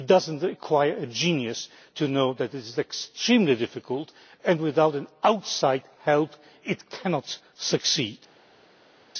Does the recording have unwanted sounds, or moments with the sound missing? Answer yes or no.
no